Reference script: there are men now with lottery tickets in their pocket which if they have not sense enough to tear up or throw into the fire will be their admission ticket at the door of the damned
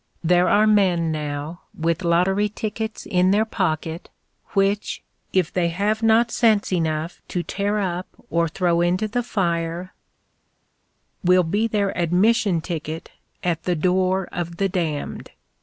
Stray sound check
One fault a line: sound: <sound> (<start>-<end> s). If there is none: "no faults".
no faults